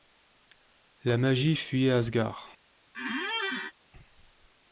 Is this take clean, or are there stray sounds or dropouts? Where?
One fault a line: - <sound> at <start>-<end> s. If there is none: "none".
- squeak at 2.9-3.7 s